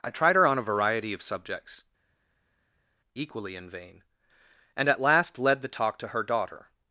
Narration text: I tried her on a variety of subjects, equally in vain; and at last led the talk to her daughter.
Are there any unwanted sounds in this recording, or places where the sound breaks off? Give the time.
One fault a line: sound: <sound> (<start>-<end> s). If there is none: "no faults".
no faults